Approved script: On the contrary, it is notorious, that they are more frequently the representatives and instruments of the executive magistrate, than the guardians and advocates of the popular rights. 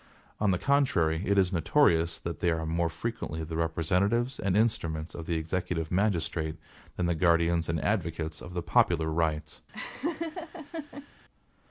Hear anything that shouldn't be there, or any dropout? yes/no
yes